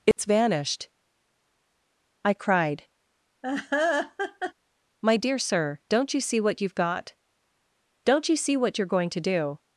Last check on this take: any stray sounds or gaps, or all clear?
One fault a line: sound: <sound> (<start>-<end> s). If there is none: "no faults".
sound: dropout (0.1-0.2 s)
sound: laugh (3.4-4.5 s)